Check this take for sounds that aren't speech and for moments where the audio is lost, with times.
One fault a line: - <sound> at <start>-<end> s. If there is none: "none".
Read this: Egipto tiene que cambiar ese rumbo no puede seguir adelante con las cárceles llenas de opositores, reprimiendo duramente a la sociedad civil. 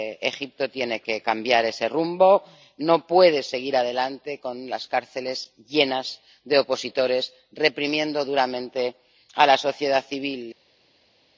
none